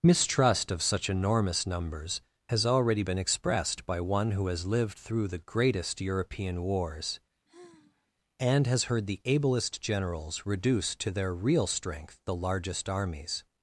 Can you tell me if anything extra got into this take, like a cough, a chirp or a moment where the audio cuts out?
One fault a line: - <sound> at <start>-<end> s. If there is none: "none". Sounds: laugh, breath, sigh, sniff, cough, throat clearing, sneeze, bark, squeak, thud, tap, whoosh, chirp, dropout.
- sigh at 7.4-8.1 s